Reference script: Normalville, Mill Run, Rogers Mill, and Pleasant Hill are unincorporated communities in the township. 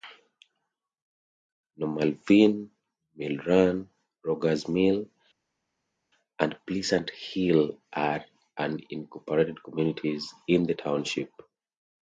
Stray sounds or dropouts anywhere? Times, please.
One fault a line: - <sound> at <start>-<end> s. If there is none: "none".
none